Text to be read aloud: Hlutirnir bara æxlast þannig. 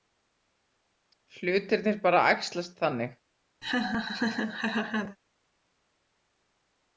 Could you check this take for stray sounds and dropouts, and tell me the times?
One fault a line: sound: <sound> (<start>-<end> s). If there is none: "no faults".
sound: laugh (3.6-5.2 s)